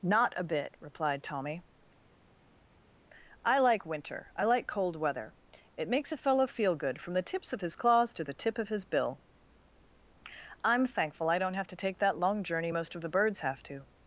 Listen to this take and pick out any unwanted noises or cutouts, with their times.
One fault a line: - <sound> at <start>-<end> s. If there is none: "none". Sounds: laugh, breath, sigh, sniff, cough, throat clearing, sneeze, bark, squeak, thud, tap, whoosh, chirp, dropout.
none